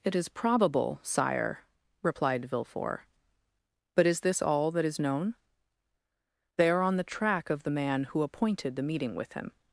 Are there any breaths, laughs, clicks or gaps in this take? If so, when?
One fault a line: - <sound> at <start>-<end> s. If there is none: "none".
none